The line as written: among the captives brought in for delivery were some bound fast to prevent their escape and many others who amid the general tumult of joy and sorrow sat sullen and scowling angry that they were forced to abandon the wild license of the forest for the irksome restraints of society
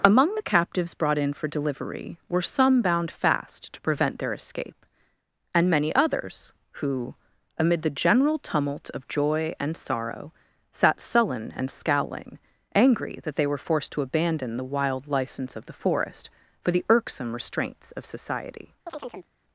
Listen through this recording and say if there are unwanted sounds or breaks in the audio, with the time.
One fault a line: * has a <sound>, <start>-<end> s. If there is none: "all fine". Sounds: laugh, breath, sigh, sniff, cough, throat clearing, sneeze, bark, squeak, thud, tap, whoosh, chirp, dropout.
* has a chirp, 18.9-19.3 s